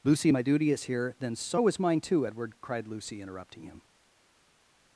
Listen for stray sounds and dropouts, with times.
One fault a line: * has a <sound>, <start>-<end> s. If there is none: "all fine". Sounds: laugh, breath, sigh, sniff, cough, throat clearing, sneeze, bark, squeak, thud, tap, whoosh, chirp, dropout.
all fine